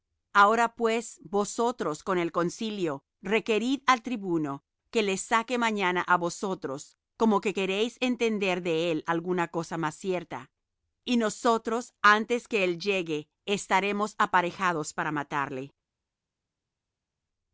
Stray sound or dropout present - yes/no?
no